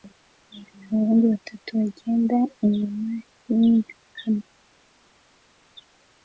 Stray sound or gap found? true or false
false